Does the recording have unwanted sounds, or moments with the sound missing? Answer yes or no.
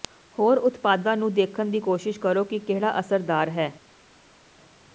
no